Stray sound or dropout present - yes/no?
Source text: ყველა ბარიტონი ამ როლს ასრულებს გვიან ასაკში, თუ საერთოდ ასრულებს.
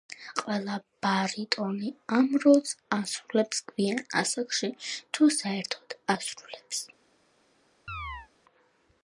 yes